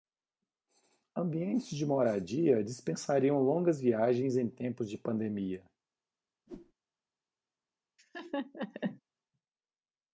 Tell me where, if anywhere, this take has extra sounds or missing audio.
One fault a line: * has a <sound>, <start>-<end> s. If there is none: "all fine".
* has a whoosh, 6.5-6.7 s
* has a laugh, 8.0-9.0 s